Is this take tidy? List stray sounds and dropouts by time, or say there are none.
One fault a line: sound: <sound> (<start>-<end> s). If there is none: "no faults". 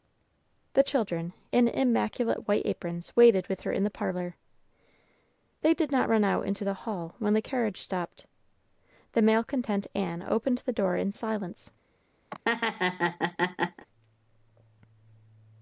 sound: laugh (12.3-13.9 s)